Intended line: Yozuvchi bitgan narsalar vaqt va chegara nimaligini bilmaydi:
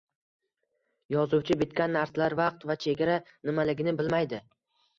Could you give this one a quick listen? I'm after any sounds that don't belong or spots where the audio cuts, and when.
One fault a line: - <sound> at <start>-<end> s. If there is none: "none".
none